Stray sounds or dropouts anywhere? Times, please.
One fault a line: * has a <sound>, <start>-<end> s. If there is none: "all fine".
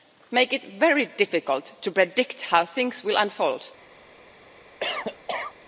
* has a cough, 4.8-5.5 s